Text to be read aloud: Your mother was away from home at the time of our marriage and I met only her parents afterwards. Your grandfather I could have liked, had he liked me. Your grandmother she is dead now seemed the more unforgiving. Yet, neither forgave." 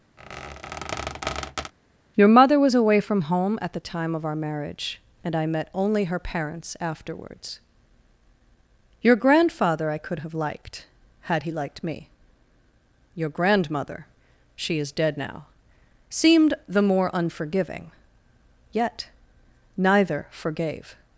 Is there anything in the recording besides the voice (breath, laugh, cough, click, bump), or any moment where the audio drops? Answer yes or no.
yes